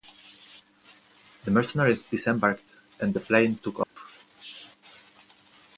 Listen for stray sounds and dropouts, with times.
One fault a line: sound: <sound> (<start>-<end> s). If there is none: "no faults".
sound: dropout (3.8-4.0 s)